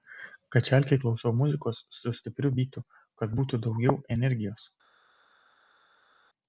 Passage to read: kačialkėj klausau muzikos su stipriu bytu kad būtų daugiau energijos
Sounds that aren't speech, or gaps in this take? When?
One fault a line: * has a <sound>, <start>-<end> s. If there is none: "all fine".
all fine